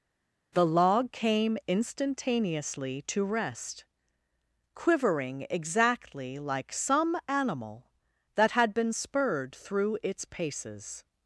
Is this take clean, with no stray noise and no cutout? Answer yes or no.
yes